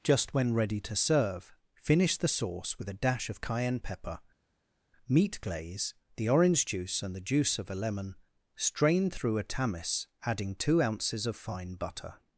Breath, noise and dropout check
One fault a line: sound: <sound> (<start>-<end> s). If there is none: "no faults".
no faults